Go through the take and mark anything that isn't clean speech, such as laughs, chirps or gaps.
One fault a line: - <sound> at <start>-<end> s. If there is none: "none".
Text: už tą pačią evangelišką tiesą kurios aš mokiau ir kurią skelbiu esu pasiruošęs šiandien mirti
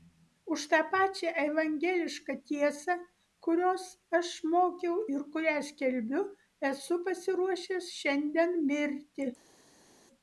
none